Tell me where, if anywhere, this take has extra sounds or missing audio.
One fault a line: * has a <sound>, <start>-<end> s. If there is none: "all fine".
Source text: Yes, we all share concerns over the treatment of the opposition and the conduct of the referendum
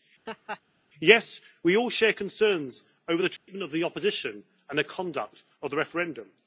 * has a laugh, 0.3-0.6 s
* has a dropout, 3.4-3.5 s